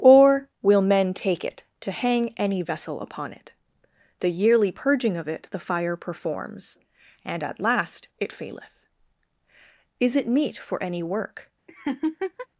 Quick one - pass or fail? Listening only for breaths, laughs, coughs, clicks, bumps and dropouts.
fail